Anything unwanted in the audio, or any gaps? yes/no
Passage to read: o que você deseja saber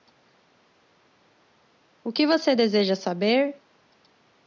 no